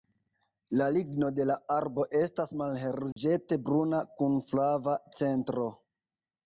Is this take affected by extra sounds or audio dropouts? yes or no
yes